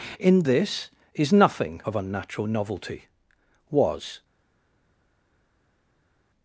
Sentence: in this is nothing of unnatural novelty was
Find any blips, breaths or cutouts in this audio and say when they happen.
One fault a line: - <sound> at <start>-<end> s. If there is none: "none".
none